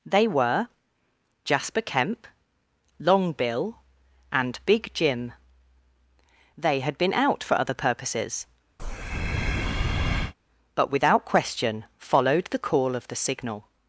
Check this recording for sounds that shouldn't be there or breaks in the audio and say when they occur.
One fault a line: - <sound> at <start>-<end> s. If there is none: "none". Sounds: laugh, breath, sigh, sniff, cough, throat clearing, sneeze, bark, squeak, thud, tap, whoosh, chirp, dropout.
- breath at 8.8-10.3 s